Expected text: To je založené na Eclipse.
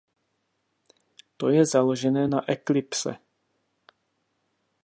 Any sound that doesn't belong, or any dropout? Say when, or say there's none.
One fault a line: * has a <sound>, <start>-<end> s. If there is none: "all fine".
all fine